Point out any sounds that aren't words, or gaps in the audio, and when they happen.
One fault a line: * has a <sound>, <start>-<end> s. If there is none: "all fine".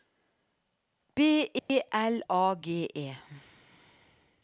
* has a dropout, 1.6-1.7 s